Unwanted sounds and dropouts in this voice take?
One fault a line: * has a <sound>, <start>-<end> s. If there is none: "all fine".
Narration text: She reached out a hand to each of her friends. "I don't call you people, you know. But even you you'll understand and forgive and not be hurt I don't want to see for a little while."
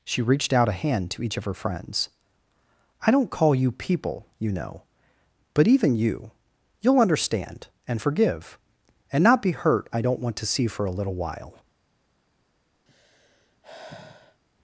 * has a sigh, 12.9-14.4 s